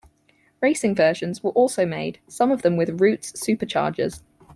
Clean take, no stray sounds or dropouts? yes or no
yes